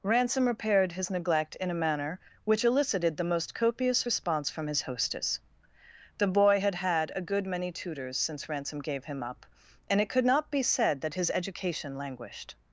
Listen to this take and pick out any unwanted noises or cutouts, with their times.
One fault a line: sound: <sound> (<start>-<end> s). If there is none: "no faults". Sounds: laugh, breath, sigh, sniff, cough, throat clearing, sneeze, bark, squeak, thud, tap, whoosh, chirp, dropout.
no faults